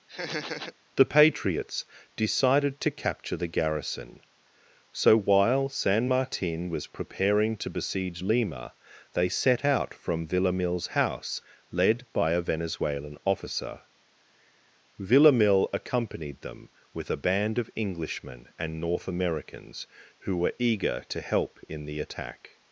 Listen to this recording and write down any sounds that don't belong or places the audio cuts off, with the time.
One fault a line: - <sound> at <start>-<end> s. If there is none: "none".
- laugh at 0.1-0.7 s